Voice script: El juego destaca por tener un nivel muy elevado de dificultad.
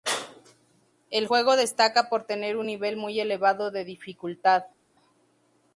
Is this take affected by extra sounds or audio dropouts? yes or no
no